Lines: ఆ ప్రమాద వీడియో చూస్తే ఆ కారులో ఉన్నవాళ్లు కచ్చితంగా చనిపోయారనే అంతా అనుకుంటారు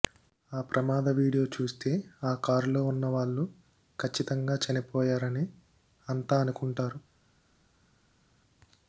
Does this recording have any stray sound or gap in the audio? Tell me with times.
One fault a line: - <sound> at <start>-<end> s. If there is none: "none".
none